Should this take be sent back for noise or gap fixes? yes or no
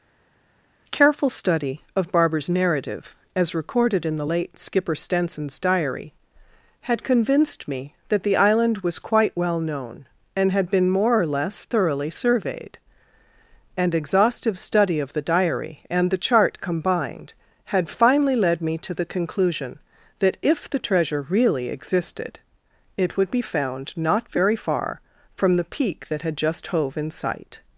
no